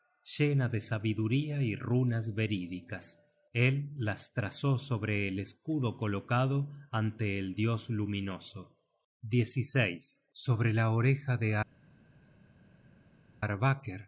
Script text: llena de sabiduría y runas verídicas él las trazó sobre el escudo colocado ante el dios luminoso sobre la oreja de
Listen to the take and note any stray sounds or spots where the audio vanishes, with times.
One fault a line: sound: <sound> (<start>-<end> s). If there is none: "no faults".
no faults